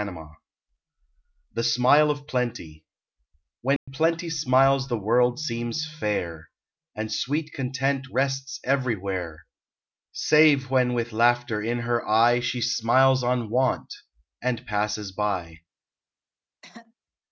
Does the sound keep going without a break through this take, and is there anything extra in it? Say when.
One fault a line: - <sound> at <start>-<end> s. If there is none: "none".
- dropout at 3.8-3.9 s
- throat clearing at 16.6-16.9 s